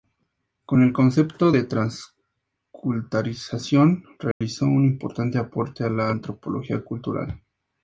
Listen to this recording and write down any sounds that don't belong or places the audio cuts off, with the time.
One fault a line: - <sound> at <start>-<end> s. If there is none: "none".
- dropout at 4.3-4.4 s